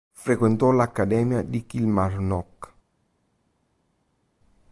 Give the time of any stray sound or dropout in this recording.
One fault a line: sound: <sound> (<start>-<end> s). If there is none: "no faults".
no faults